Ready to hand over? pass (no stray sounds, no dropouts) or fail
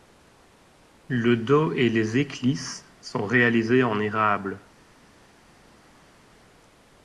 pass